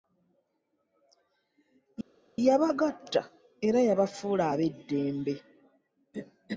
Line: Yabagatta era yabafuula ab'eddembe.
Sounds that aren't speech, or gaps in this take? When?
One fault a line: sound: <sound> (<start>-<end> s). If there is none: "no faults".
no faults